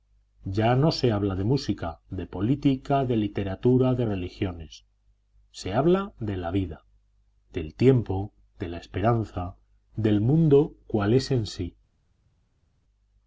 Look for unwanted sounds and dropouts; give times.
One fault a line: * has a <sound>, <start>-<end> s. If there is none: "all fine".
all fine